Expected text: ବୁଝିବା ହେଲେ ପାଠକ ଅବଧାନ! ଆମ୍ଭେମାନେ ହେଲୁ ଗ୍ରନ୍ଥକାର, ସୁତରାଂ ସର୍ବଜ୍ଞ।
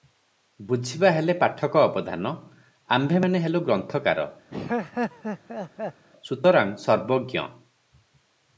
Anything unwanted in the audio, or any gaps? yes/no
yes